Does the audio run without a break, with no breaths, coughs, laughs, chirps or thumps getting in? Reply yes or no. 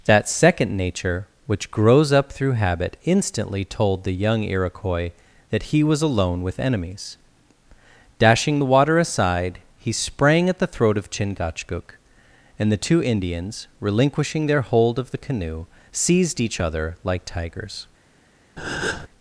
no